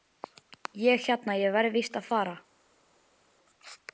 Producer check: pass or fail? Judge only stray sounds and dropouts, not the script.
pass